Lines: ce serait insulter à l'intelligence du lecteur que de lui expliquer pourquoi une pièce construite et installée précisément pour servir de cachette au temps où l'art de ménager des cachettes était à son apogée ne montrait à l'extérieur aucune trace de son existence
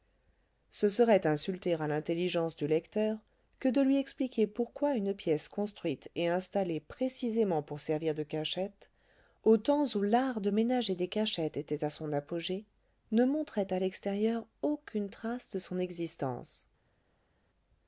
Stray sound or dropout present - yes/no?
no